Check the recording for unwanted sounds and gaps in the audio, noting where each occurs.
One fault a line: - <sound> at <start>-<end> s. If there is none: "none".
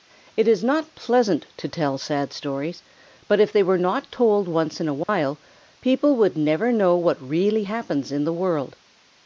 - dropout at 5.0-5.1 s